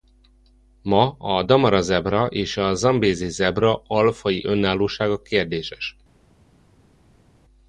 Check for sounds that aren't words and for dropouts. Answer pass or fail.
pass